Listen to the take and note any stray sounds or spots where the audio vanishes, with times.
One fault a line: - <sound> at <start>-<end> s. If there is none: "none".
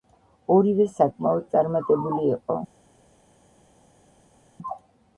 none